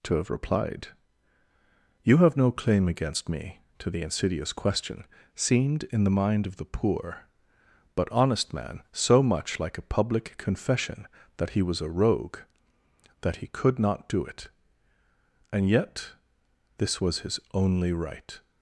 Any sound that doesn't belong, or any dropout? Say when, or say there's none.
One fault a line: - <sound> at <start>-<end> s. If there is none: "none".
none